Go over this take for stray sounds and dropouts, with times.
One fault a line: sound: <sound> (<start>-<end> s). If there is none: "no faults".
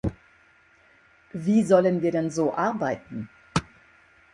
no faults